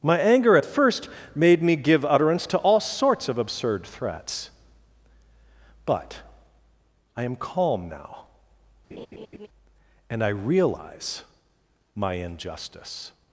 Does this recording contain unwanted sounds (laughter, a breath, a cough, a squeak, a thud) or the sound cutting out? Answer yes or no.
yes